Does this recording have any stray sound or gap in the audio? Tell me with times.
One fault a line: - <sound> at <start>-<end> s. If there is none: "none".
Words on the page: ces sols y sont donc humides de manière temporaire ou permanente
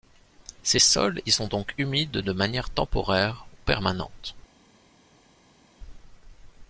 none